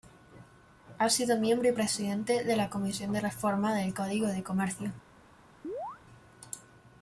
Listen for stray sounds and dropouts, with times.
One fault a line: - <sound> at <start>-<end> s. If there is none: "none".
- chirp at 5.6-6.0 s